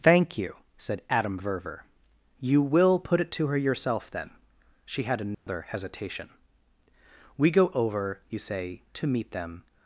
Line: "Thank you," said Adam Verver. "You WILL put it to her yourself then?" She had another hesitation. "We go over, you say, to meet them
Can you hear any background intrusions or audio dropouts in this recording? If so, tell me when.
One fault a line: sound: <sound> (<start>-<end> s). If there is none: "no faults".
sound: dropout (5.3-5.5 s)